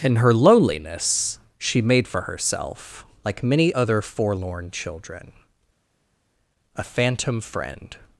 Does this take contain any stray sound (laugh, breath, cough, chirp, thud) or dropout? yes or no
no